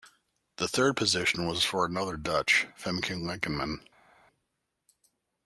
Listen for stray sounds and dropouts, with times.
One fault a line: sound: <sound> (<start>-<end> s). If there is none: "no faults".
no faults